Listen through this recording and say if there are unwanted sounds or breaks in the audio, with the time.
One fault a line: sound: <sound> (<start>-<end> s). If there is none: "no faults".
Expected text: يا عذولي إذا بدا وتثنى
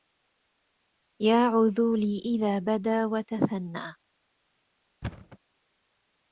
sound: thud (5.0-5.4 s)